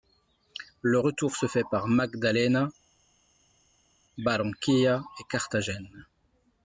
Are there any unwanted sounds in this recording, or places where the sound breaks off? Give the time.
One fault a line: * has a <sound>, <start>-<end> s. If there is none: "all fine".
all fine